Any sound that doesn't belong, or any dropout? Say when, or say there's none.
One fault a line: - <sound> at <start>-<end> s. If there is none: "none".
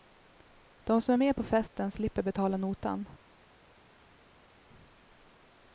none